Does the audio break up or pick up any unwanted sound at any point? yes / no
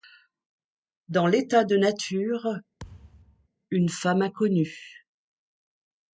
yes